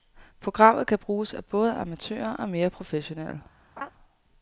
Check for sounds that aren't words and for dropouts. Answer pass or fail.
fail